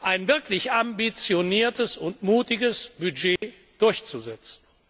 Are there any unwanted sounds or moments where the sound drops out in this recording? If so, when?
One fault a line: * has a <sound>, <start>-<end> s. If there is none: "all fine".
* has a dropout, 3.4-3.4 s